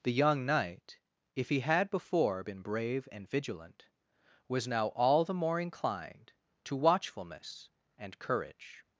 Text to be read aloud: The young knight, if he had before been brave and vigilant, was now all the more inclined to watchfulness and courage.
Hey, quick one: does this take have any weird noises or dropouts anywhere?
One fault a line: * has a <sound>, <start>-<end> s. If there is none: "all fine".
all fine